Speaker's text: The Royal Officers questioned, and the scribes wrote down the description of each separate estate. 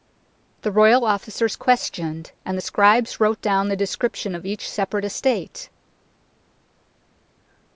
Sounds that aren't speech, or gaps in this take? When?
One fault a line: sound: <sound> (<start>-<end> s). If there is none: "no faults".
no faults